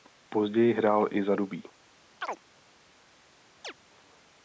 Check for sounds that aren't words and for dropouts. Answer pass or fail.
fail